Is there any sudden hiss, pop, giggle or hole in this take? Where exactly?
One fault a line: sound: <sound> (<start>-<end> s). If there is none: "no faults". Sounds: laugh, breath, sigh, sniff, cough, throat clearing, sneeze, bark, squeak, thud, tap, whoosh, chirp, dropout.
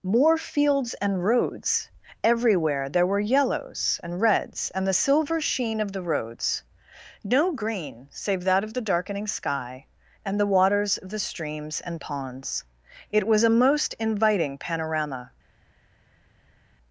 no faults